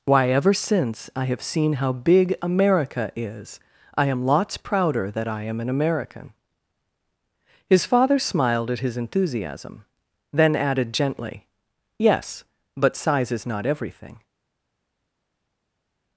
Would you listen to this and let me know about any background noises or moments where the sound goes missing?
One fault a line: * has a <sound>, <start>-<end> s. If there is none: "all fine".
all fine